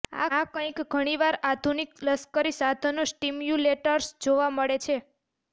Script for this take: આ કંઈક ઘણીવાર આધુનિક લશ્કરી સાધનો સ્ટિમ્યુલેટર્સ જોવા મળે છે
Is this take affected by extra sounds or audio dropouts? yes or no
no